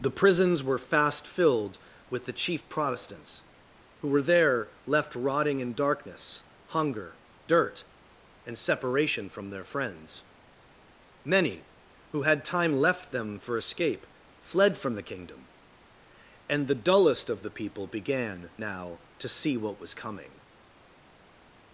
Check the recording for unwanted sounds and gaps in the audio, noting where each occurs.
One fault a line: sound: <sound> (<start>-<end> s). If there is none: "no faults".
no faults